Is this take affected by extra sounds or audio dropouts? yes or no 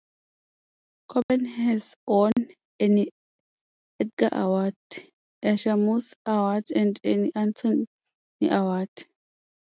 yes